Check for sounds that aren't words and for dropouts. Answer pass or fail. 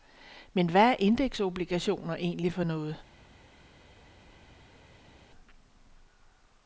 pass